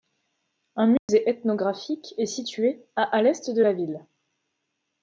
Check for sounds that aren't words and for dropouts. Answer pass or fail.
fail